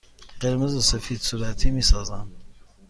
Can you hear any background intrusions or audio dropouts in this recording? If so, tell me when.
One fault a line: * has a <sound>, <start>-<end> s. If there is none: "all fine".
all fine